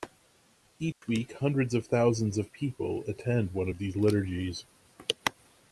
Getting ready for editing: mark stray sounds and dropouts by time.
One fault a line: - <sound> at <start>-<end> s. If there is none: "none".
- dropout at 0.9-1.0 s